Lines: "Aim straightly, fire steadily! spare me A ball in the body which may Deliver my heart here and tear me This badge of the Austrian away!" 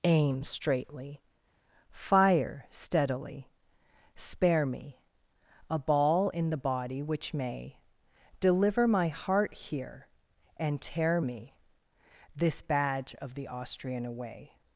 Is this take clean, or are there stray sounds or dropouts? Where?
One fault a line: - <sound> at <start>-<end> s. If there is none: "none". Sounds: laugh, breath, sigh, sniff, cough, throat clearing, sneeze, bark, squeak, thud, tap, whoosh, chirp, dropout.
none